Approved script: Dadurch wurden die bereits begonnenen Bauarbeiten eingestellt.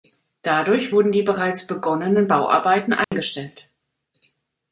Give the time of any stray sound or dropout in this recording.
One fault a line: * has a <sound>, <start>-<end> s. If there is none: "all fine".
* has a dropout, 3.0-3.1 s